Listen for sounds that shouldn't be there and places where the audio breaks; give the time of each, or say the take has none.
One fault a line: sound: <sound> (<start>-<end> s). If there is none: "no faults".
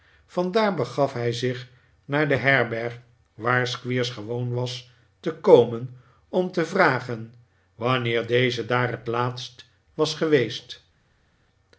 no faults